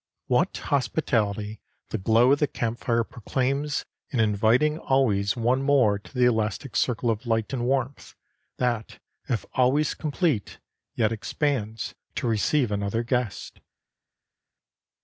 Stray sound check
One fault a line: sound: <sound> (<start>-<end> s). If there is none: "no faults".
no faults